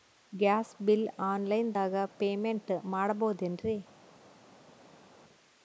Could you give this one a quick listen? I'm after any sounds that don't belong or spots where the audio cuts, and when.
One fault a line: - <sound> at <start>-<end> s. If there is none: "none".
none